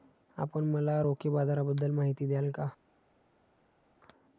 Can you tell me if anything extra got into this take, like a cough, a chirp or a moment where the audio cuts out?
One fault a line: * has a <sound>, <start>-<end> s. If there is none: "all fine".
all fine